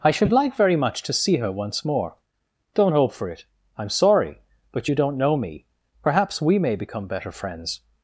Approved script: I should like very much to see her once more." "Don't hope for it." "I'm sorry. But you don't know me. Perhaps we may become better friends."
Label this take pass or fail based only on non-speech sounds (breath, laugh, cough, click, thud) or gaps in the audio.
pass